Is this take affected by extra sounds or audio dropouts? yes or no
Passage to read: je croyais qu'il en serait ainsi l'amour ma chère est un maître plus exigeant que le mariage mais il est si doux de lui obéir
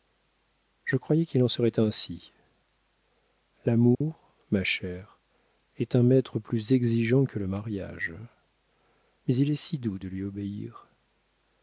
yes